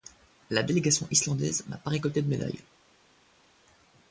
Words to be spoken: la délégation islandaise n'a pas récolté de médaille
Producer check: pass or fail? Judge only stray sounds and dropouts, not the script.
pass